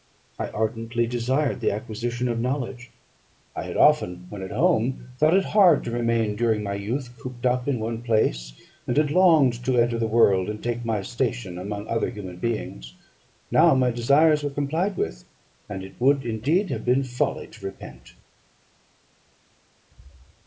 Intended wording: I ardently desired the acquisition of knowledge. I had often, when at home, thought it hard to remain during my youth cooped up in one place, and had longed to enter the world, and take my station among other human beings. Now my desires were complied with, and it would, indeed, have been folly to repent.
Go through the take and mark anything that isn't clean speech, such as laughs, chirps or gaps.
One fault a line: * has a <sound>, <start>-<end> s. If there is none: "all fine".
all fine